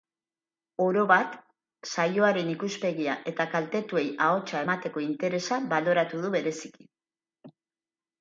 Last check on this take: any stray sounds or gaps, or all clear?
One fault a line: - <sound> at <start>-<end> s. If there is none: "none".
none